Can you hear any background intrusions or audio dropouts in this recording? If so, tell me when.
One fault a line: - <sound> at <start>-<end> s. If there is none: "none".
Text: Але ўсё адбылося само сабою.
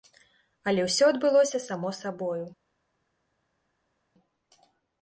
none